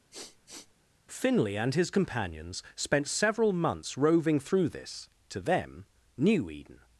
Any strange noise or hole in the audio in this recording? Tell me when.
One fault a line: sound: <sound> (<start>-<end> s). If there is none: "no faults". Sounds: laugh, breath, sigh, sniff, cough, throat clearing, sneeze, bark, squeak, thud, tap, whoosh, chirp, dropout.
sound: sniff (0.1-0.7 s)